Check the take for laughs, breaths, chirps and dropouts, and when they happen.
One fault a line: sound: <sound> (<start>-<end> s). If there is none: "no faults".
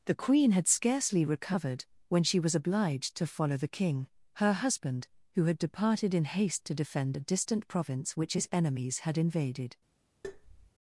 sound: tap (10.2-10.7 s)